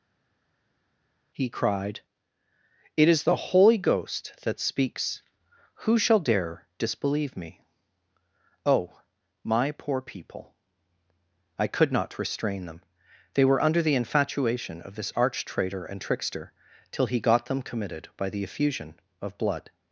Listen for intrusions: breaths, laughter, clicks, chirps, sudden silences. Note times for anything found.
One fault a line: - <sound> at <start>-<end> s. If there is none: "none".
none